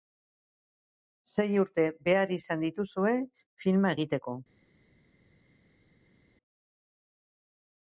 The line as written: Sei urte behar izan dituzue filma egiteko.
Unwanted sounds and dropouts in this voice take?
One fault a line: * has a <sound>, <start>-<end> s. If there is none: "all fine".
all fine